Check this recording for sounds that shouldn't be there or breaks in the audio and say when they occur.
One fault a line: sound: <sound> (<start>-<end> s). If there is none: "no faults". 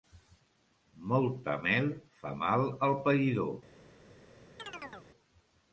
sound: chirp (4.6-5.1 s)